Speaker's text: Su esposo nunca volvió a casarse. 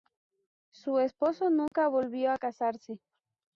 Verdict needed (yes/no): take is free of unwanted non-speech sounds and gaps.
no